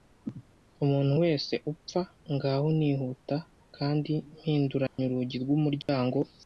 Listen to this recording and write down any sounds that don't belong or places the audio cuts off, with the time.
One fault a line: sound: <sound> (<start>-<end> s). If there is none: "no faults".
sound: dropout (4.9-5.0 s)
sound: dropout (5.8-5.9 s)